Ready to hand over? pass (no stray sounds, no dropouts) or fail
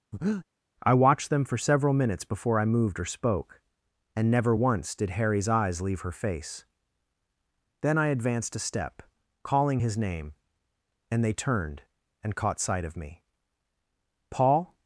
fail